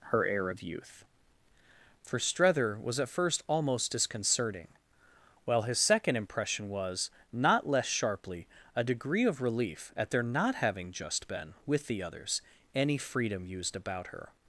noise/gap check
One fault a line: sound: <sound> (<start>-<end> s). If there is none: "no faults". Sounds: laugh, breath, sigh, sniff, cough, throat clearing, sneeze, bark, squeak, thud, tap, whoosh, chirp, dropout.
no faults